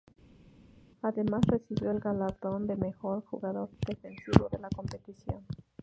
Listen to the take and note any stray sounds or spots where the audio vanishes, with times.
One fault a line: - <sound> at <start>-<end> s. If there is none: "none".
none